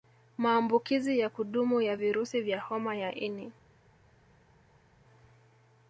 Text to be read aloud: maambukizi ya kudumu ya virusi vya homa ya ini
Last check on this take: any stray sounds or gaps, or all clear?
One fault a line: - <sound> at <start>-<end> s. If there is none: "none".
none